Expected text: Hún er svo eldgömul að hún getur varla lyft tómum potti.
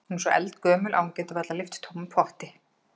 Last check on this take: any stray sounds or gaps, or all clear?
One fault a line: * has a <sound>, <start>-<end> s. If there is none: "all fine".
all fine